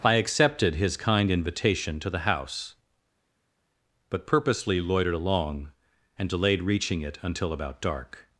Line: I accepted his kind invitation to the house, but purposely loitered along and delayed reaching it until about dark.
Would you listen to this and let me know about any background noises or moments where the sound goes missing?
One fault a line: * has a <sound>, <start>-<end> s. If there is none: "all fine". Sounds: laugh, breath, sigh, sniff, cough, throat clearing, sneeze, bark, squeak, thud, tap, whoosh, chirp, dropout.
all fine